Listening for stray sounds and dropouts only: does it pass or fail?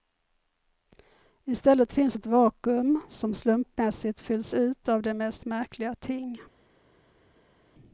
pass